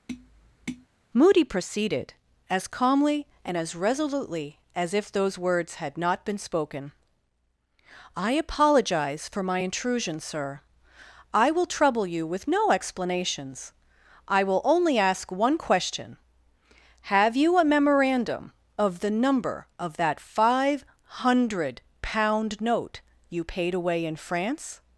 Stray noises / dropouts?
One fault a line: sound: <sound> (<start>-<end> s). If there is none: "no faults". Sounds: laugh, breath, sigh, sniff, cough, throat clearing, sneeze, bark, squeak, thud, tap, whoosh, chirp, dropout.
sound: tap (0.1-0.9 s)